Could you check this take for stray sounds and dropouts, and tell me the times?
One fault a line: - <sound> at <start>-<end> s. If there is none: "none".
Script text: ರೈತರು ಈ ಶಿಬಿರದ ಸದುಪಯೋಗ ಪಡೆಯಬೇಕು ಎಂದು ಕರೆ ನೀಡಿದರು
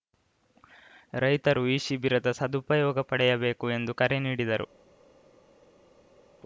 none